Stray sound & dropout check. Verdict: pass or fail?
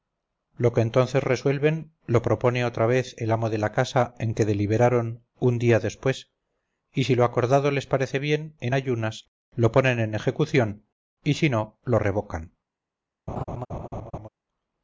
fail